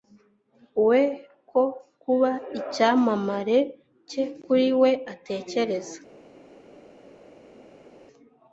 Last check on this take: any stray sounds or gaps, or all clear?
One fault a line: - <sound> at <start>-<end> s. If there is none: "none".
none